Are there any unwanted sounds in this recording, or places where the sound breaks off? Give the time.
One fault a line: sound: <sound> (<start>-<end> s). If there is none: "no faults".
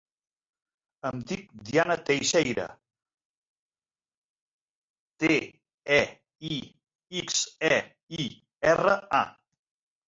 no faults